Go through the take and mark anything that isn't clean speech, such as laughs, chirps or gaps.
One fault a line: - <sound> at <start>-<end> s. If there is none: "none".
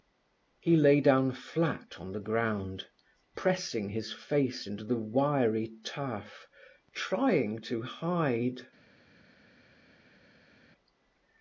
none